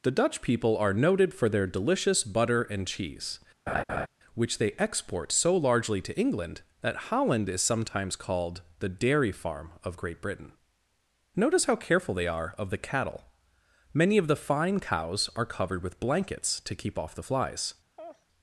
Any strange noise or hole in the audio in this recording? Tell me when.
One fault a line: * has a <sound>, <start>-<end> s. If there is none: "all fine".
* has a laugh, 3.7-4.1 s
* has a laugh, 18.0-18.3 s